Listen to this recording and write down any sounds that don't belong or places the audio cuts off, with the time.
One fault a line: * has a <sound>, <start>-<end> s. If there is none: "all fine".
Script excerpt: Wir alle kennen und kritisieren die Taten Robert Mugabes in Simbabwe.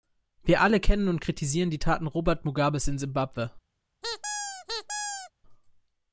* has a squeak, 4.0-5.3 s